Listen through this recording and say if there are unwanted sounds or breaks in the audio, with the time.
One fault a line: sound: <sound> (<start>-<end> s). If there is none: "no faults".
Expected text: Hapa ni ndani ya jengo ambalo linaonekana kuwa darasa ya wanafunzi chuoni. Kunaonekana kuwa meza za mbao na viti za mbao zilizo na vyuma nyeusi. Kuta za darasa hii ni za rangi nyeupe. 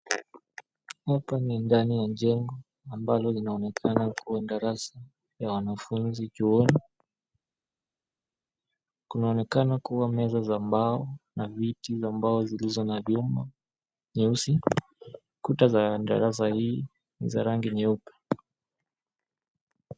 no faults